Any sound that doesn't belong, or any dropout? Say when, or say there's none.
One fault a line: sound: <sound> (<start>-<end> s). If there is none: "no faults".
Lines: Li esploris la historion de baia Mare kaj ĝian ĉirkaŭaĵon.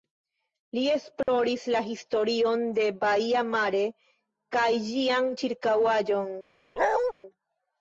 sound: dropout (1.2-1.3 s)
sound: bark (6.8-7.1 s)